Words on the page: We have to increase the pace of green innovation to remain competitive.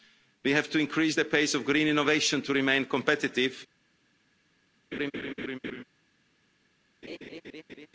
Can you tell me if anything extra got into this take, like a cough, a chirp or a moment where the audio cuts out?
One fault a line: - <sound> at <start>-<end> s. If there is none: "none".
- laugh at 4.9-5.8 s
- laugh at 7.0-7.9 s